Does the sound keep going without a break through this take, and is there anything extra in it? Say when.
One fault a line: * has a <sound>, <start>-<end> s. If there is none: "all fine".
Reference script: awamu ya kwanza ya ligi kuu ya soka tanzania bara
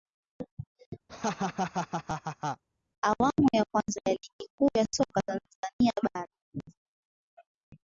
* has a laugh, 1.1-2.6 s